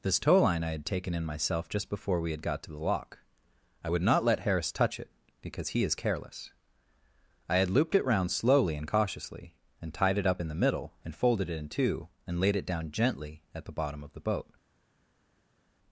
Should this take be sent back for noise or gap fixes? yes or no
no